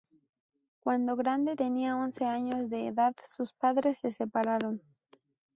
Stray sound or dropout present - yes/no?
no